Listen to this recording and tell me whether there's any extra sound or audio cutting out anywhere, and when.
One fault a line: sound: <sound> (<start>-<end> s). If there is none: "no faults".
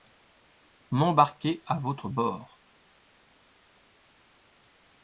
no faults